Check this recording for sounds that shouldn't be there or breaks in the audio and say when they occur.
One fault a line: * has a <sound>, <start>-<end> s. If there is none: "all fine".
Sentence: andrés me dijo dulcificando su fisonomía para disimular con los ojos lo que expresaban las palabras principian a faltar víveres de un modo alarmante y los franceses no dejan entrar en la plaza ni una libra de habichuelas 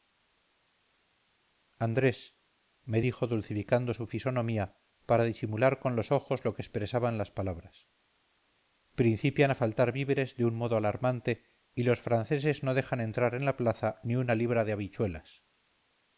all fine